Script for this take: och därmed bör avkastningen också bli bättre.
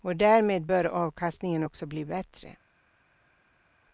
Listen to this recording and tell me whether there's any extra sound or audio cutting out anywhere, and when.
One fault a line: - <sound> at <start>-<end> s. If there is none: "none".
none